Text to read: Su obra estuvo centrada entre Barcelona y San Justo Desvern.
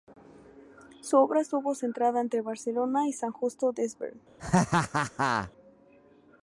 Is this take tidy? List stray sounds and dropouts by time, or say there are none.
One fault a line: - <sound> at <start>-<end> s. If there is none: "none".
- laugh at 4.4-5.5 s